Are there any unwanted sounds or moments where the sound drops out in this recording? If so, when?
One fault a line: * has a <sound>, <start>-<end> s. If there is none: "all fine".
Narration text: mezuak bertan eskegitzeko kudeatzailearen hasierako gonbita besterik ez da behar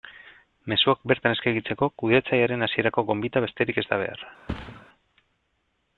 * has a thud, 4.5-4.9 s